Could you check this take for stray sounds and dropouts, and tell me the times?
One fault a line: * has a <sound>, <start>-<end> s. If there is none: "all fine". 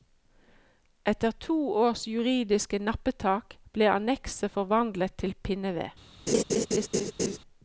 * has a laugh, 6.3-7.4 s